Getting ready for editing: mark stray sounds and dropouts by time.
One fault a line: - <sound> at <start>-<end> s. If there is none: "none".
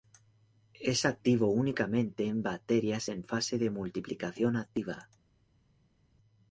none